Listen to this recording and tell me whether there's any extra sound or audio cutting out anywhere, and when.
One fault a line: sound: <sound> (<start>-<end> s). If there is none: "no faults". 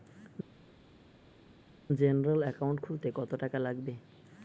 no faults